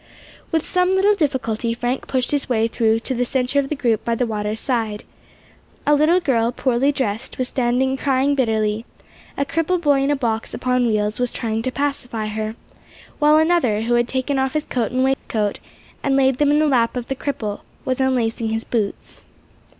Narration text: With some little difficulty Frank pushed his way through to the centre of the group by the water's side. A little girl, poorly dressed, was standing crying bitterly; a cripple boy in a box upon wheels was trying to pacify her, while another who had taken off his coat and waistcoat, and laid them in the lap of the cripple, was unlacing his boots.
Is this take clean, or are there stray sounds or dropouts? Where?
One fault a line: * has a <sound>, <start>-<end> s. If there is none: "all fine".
* has a dropout, 15.1-15.2 s